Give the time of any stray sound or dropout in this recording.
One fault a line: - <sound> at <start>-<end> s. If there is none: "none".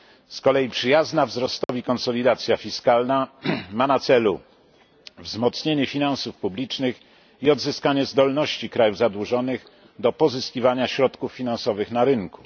- dropout at 1.6-1.7 s